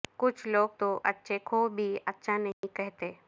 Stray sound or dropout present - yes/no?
yes